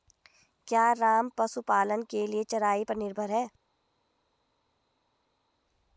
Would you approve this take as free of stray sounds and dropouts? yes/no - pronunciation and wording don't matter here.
yes